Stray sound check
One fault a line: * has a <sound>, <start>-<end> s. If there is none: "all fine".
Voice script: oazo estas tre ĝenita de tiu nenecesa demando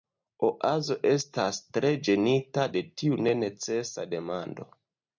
all fine